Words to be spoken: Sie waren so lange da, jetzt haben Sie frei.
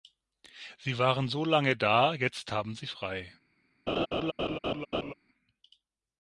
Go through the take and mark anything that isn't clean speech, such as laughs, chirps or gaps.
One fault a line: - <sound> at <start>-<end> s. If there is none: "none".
- laugh at 3.9-5.1 s